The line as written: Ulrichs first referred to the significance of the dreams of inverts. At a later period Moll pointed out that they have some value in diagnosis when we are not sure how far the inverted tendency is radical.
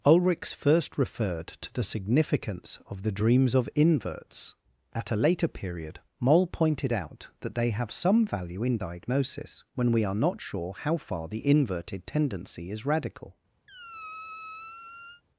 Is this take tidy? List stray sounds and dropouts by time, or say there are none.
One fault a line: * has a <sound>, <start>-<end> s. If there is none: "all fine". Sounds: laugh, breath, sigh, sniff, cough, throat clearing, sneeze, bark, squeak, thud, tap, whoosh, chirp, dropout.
* has a squeak, 13.7-15.2 s